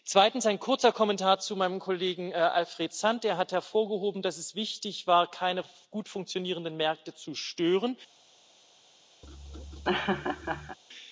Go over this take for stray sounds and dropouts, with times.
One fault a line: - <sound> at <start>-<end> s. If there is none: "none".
- laugh at 9.2-10.8 s